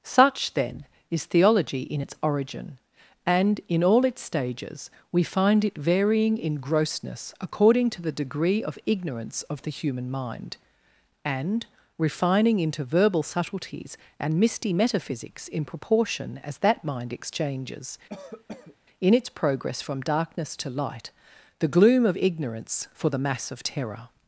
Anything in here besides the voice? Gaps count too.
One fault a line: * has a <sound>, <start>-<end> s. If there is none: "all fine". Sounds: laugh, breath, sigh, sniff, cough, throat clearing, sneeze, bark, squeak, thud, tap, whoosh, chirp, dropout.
* has a cough, 18.1-18.8 s